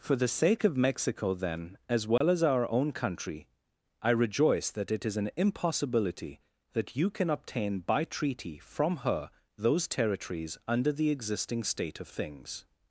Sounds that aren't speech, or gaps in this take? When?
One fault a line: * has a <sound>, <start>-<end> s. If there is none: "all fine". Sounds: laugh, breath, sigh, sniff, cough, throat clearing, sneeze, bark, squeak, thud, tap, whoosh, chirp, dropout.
* has a dropout, 2.2-2.2 s